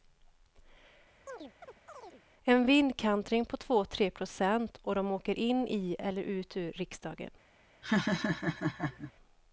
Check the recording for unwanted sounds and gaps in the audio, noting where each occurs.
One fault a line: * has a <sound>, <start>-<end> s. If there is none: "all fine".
* has a chirp, 1.3-2.2 s
* has a laugh, 7.8-9.1 s